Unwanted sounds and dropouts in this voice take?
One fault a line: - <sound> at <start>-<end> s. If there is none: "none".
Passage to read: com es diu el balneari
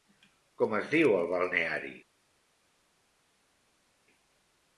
none